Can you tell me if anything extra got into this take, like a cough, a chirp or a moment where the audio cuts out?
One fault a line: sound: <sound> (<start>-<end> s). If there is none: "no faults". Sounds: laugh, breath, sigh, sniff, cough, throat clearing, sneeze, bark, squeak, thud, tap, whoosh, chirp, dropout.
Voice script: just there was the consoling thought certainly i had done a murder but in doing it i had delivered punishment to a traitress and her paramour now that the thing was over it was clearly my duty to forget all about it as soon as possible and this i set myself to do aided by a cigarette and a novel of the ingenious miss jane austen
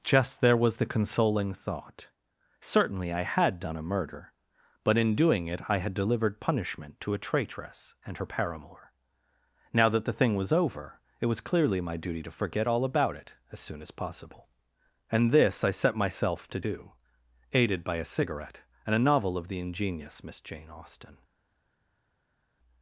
no faults